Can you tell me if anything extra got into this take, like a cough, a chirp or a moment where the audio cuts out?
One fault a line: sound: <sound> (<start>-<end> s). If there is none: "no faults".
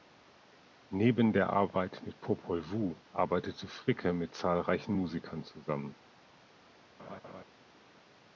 sound: laugh (7.0-7.4 s)